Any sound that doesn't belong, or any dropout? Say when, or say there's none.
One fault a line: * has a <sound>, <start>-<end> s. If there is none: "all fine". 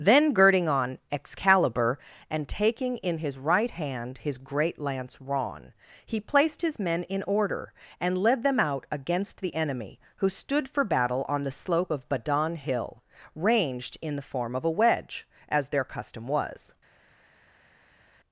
all fine